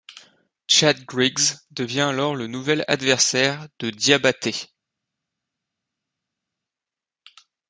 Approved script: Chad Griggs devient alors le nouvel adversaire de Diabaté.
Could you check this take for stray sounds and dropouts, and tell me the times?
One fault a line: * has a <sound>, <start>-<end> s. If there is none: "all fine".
all fine